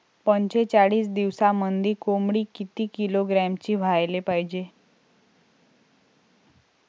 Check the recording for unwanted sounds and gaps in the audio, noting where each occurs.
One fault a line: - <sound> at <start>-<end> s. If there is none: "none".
none